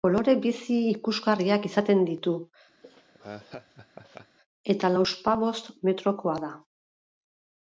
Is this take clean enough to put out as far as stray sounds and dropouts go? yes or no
no